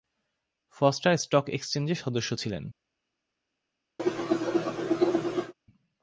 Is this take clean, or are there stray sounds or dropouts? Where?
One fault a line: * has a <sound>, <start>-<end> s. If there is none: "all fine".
* has a cough, 4.0-5.5 s